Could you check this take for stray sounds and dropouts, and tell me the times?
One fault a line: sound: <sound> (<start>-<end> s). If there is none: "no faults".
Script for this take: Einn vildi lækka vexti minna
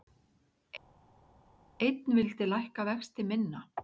no faults